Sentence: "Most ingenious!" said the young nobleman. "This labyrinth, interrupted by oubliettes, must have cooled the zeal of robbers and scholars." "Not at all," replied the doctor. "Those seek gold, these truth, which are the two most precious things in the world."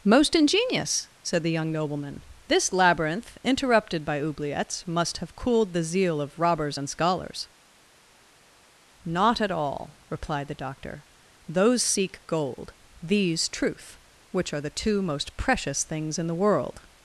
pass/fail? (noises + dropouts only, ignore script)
pass